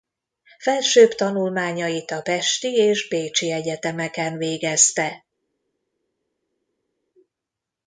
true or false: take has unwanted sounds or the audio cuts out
false